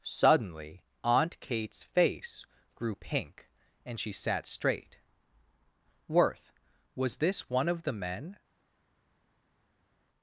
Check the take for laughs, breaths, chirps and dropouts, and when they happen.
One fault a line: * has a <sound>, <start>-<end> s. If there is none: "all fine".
all fine